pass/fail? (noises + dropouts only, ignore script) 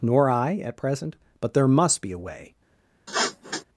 fail